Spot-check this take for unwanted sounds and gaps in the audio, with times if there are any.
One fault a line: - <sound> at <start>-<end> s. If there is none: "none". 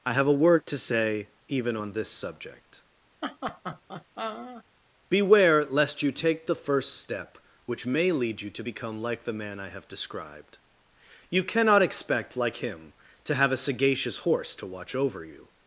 - laugh at 3.2-4.6 s